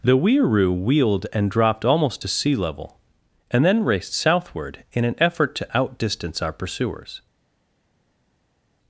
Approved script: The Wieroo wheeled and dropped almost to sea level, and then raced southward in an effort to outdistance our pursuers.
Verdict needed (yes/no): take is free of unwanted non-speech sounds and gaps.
yes